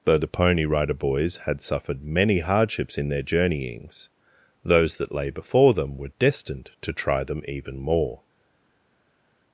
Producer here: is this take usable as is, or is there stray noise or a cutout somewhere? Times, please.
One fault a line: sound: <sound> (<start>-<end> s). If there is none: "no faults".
no faults